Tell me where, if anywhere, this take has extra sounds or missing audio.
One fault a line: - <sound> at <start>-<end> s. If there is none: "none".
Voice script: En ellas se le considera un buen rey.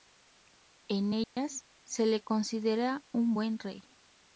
- dropout at 1.2-1.4 s